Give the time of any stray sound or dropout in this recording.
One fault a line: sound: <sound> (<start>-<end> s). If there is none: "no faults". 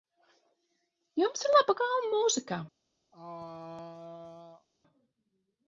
sound: throat clearing (3.1-4.7 s)